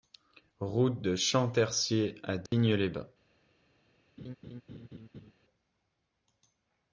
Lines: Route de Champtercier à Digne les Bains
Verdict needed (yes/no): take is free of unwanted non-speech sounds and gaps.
no